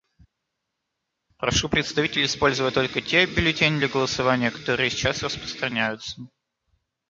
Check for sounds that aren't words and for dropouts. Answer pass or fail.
pass